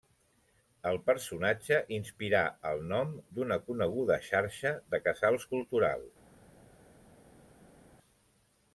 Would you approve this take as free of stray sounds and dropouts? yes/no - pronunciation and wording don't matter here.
yes